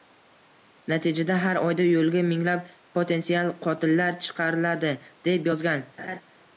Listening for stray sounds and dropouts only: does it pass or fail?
fail